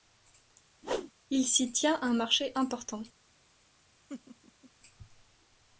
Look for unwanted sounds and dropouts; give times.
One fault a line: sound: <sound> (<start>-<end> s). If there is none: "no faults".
sound: whoosh (0.8-1.1 s)
sound: laugh (4.1-4.7 s)